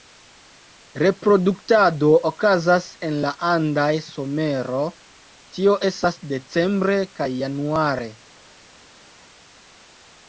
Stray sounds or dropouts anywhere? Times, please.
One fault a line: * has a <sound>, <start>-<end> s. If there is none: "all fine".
all fine